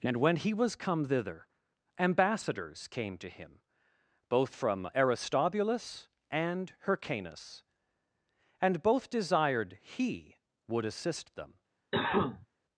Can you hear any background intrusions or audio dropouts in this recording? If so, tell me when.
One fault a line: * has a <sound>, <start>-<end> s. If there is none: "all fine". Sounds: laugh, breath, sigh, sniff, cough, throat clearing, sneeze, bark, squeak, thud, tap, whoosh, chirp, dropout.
* has a cough, 11.9-12.5 s